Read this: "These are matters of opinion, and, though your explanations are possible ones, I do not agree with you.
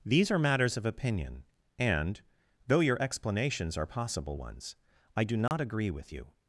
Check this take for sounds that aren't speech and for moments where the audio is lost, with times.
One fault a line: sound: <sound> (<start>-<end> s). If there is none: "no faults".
sound: dropout (5.5-5.5 s)